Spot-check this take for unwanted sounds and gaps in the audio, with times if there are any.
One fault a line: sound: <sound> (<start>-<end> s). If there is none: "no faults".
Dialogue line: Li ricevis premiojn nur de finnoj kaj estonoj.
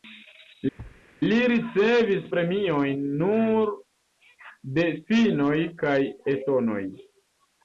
sound: thud (0.8-1.0 s)